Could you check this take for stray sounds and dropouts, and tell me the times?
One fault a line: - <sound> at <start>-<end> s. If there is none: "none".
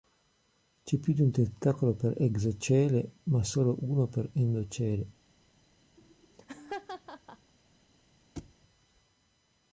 - laugh at 6.0-7.5 s
- thud at 8.4-8.5 s